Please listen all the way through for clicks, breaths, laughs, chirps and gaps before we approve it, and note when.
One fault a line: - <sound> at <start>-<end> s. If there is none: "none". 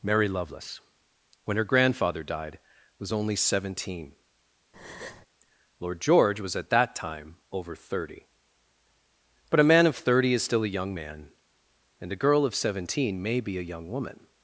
- breath at 4.7-5.3 s